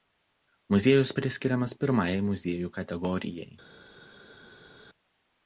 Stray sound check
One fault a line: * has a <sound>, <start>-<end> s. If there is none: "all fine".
all fine